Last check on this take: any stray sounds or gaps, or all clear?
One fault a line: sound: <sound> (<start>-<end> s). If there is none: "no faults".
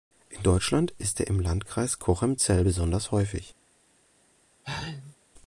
sound: sneeze (4.6-5.2 s)